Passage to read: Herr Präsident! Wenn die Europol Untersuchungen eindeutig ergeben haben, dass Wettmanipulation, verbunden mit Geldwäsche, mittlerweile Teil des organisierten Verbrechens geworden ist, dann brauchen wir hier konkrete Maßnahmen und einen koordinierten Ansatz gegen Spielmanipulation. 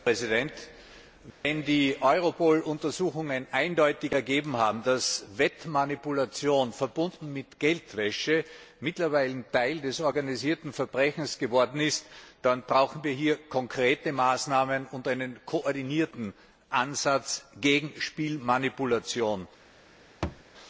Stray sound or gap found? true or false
true